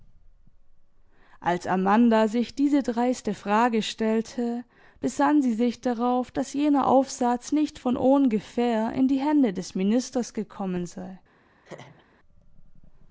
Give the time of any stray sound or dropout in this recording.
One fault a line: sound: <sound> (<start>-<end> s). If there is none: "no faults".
sound: laugh (11.6-12.1 s)